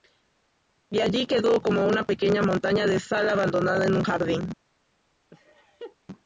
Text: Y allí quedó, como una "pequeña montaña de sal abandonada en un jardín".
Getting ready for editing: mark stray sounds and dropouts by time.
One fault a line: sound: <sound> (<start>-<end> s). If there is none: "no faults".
sound: laugh (5.3-6.0 s)